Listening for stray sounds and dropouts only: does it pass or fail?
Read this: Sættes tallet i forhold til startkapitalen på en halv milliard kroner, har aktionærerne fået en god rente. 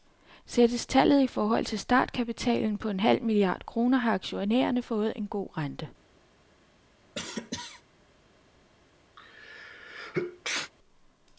fail